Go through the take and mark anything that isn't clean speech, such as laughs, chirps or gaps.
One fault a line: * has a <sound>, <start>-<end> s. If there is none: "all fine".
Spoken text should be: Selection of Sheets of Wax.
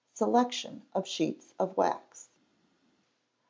all fine